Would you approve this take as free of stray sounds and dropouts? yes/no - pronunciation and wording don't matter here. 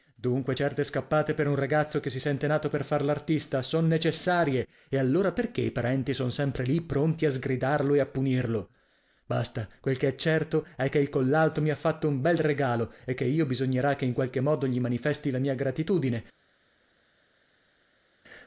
yes